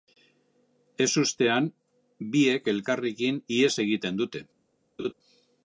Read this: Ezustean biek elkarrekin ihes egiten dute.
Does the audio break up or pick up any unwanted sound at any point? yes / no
yes